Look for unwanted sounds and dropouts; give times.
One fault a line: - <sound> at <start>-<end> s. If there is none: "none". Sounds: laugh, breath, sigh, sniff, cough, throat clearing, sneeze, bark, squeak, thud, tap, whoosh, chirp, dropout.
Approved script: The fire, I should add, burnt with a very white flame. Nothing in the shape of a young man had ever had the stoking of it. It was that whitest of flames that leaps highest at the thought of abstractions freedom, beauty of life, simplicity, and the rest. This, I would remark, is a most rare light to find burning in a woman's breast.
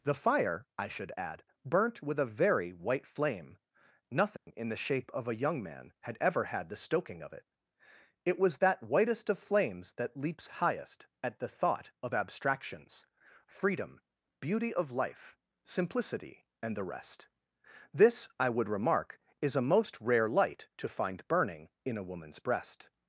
- dropout at 4.4-4.5 s